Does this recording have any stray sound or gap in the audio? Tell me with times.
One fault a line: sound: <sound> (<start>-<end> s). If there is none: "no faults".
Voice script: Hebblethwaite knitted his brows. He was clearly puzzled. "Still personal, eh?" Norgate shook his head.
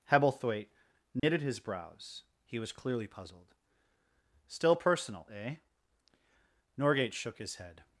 sound: dropout (1.2-1.2 s)